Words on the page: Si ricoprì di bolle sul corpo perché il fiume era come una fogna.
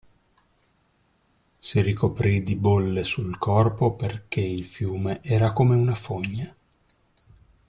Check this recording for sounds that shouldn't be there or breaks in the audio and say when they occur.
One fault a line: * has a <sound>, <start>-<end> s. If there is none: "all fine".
all fine